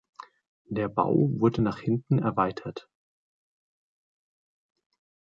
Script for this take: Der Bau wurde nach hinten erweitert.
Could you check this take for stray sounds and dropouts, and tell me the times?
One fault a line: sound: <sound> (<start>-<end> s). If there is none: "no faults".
no faults